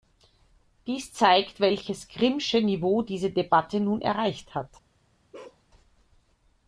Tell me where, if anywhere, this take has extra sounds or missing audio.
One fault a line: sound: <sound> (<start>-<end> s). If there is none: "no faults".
sound: bark (5.3-5.6 s)